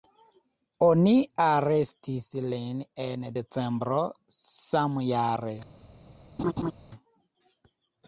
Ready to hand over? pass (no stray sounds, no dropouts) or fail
fail